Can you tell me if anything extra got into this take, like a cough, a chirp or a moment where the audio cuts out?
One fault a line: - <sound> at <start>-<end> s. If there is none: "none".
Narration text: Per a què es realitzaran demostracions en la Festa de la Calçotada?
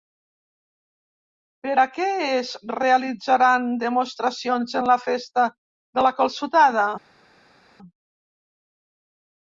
none